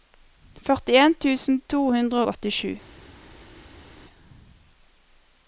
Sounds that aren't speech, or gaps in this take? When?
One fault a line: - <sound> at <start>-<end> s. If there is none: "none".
none